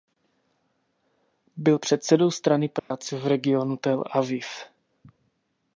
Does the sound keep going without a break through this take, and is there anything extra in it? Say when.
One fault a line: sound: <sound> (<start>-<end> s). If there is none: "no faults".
sound: dropout (2.8-2.9 s)